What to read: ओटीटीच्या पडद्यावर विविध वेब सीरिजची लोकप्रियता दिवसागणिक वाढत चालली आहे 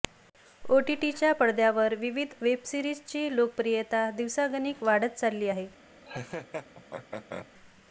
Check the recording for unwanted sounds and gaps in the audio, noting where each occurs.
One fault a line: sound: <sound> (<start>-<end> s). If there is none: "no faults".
sound: laugh (6.0-7.5 s)